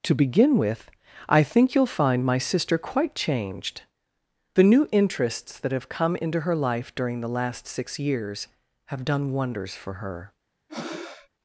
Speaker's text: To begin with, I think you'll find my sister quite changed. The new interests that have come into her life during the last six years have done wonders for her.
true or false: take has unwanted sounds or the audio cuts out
true